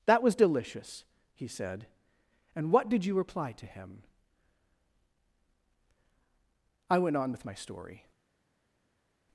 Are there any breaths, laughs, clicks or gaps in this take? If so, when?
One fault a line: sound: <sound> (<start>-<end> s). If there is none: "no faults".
no faults